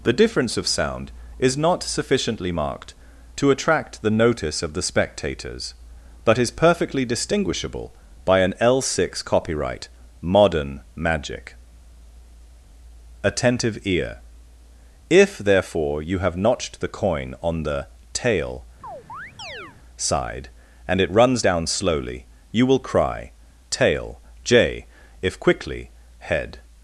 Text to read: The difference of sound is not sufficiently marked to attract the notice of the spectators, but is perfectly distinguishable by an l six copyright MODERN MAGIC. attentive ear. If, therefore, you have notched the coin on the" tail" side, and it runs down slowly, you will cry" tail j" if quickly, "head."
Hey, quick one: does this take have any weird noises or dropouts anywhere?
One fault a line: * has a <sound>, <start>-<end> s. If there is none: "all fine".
* has a chirp, 18.8-19.8 s